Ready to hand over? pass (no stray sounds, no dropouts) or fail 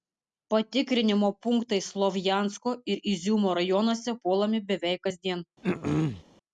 fail